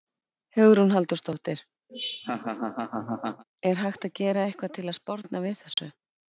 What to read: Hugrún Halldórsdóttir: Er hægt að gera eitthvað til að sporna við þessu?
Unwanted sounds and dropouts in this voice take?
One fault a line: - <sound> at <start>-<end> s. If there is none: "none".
- laugh at 1.9-3.4 s
- dropout at 5.7-5.8 s